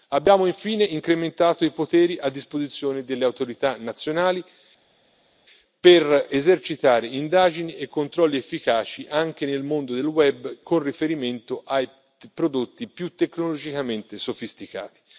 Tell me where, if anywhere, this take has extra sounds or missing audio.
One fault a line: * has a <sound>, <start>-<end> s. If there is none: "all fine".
all fine